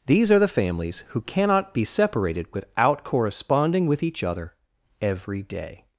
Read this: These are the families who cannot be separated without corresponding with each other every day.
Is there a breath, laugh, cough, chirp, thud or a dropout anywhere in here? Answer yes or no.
no